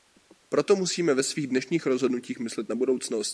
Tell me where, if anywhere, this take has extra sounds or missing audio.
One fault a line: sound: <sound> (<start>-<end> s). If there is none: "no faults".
no faults